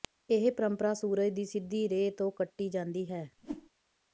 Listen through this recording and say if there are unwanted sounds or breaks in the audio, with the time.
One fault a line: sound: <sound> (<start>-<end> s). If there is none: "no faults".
sound: whoosh (3.4-3.7 s)